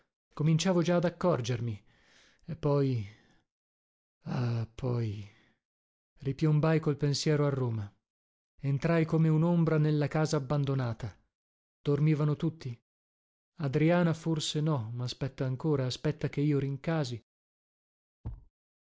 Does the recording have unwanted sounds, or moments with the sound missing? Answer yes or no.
yes